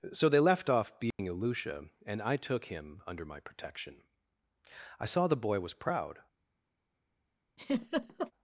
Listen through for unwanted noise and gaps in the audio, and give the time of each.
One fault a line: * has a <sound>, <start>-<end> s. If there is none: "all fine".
* has a dropout, 1.1-1.2 s
* has a laugh, 7.6-8.3 s